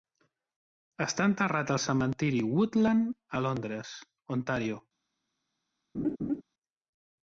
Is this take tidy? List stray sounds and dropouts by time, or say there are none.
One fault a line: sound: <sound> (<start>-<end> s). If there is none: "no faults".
sound: laugh (5.9-6.4 s)